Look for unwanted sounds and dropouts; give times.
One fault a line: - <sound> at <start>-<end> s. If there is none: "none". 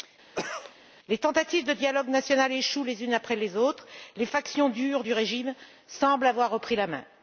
- cough at 0.3-0.8 s